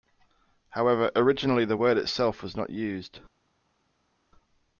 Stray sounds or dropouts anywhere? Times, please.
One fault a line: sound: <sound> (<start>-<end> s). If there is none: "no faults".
no faults